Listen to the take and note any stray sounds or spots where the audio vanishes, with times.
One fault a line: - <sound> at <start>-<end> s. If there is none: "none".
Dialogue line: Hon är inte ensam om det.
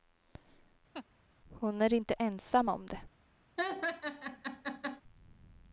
- laugh at 0.9-1.1 s
- laugh at 3.6-5.0 s